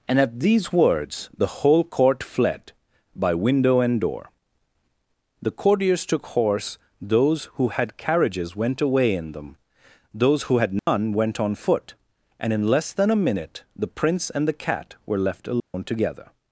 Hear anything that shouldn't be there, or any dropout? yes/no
yes